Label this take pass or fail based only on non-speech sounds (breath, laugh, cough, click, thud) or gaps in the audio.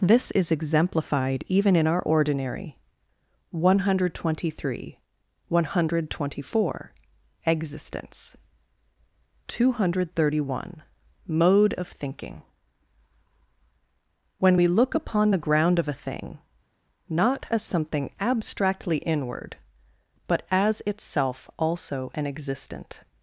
pass